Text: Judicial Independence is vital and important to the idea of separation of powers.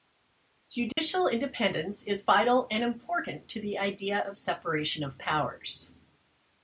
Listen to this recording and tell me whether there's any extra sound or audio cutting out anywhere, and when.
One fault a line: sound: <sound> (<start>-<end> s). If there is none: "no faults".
sound: dropout (0.9-1.0 s)